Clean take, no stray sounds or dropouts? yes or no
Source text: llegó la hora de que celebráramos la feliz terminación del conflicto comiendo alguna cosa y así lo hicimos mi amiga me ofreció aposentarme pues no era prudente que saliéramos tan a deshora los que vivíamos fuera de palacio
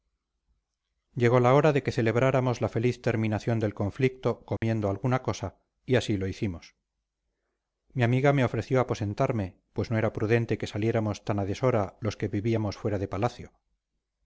no